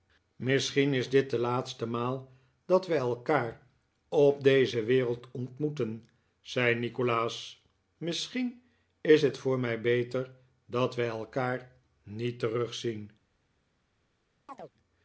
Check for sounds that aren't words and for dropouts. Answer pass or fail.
fail